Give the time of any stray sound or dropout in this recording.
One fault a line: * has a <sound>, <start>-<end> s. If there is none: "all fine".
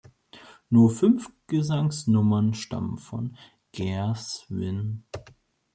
all fine